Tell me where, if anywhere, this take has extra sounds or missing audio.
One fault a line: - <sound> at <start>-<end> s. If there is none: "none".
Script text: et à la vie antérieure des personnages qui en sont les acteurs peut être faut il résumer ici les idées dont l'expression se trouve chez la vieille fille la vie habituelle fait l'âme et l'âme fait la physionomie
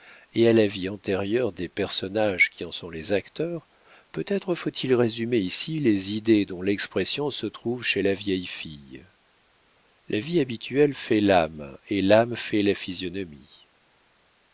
none